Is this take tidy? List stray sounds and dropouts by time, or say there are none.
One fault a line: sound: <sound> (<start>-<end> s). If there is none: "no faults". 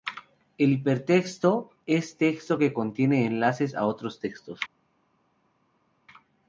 no faults